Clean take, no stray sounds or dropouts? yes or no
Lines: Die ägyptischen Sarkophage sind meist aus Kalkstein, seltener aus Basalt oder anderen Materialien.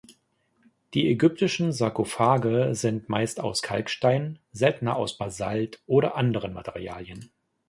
yes